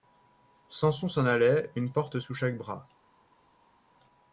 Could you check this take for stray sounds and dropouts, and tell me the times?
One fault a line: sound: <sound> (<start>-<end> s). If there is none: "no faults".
no faults